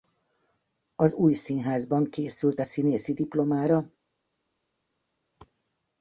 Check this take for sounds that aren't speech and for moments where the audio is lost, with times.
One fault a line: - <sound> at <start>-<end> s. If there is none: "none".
none